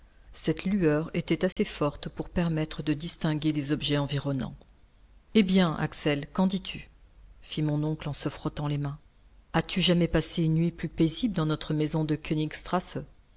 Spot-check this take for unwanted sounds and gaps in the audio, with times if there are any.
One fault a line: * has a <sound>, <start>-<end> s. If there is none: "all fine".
* has a dropout, 1.5-1.6 s